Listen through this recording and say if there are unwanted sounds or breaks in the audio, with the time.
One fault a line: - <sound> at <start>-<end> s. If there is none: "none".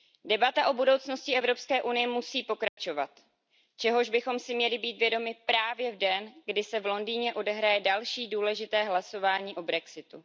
- dropout at 2.7-2.8 s